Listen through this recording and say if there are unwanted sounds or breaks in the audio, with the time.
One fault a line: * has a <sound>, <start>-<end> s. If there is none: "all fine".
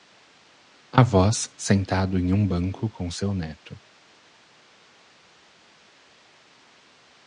all fine